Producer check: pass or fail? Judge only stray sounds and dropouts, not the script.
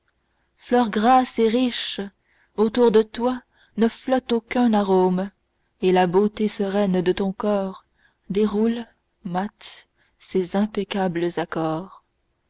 pass